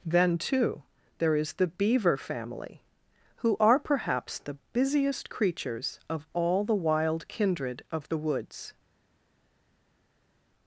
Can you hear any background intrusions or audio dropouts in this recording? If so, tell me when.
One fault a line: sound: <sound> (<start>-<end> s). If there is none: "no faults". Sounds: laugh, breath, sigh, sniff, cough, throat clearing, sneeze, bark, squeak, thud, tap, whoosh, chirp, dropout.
no faults